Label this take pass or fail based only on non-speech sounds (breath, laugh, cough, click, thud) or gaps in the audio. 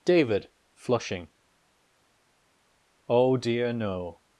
pass